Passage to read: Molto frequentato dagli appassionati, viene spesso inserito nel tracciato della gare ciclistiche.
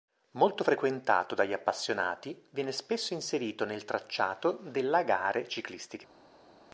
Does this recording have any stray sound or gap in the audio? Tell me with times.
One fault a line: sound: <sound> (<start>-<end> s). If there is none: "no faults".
no faults